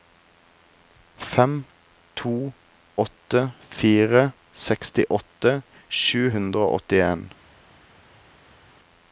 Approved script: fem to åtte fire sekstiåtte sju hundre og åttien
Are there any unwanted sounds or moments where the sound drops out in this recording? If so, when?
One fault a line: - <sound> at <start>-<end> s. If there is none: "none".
none